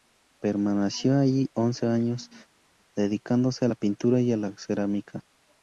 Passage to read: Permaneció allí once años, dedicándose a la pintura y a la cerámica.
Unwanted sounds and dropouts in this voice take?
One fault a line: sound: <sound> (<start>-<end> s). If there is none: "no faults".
no faults